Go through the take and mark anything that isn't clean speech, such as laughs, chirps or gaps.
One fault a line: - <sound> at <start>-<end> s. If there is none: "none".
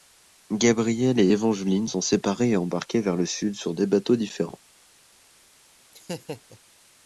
- laugh at 5.9-6.6 s